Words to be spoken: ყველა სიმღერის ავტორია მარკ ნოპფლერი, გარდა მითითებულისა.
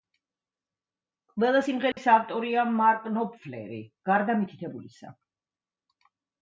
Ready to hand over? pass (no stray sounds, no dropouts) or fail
fail